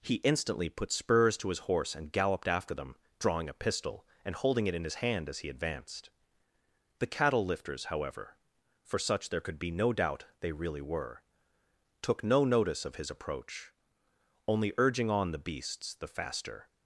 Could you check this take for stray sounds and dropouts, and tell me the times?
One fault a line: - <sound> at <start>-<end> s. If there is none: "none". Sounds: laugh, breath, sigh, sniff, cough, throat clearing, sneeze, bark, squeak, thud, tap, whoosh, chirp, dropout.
none